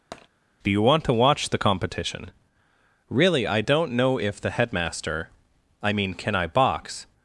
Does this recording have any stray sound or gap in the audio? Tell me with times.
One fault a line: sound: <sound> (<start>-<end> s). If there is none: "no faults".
sound: tap (0.1-0.3 s)